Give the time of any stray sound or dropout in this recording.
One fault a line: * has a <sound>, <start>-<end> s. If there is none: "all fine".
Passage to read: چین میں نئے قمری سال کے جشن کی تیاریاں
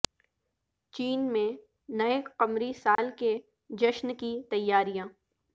* has a dropout, 3.0-3.0 s